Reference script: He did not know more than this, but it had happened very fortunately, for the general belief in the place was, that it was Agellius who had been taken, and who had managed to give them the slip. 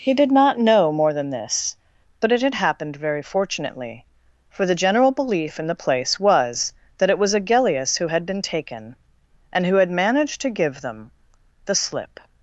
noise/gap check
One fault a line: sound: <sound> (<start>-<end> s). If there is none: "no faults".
no faults